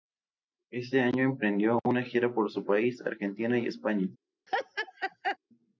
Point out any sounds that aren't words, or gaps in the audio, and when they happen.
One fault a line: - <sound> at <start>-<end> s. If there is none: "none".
- laugh at 4.5-5.4 s